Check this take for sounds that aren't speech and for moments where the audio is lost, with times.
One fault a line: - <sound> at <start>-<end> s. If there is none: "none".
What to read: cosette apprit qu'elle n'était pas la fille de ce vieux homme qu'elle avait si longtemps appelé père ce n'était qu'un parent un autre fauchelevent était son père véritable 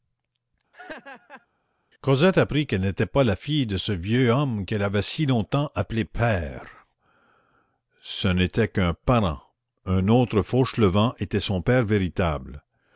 - laugh at 0.7-1.5 s